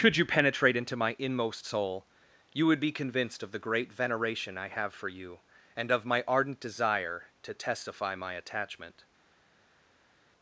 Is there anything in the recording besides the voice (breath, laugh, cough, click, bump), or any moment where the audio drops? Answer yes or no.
no